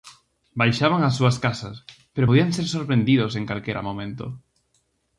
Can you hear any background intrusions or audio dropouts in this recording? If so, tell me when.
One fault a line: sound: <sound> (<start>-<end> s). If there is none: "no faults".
no faults